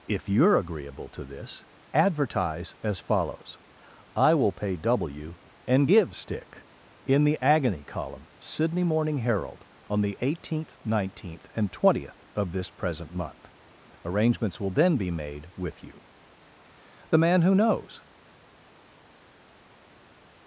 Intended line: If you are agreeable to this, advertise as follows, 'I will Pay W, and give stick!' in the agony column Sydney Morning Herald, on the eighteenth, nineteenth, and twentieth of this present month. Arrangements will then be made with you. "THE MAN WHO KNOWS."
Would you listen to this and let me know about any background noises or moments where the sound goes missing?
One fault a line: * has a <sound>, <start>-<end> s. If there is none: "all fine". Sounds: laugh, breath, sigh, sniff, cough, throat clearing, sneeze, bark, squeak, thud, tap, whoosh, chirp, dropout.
all fine